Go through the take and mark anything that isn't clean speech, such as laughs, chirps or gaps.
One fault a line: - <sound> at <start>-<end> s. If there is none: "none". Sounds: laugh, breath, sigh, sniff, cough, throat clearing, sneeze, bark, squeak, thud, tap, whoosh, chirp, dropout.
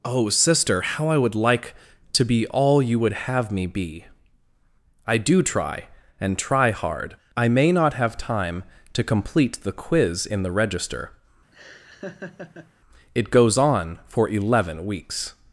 - laugh at 11.5-12.7 s